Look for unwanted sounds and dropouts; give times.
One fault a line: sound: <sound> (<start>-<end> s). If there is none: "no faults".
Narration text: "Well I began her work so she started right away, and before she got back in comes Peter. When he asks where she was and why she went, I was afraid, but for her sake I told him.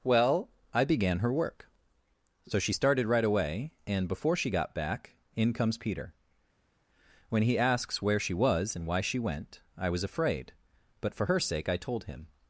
no faults